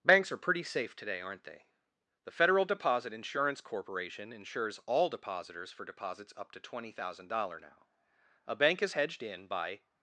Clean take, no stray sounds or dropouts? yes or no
yes